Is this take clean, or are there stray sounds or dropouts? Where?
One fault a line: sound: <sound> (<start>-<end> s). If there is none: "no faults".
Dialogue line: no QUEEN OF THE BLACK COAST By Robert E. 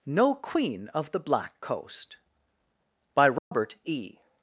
sound: dropout (3.4-3.5 s)